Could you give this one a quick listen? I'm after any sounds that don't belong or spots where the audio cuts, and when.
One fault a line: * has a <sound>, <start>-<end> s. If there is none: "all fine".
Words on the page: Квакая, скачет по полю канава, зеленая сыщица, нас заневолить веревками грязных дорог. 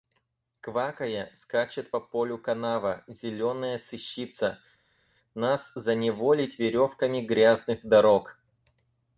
all fine